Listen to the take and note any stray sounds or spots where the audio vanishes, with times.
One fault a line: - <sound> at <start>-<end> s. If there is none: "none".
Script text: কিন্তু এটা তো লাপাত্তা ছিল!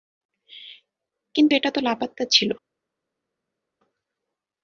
none